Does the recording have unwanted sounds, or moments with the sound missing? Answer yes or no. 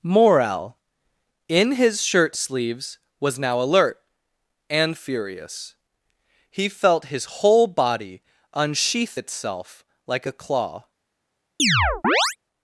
yes